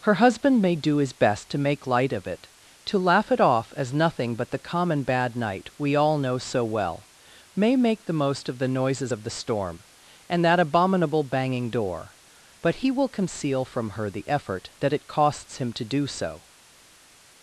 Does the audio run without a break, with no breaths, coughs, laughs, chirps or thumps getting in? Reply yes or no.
yes